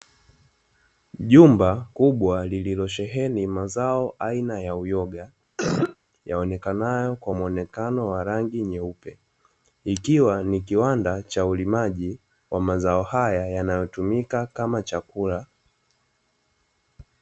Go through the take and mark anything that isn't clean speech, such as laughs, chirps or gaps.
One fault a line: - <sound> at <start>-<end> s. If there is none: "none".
- cough at 5.6-6.0 s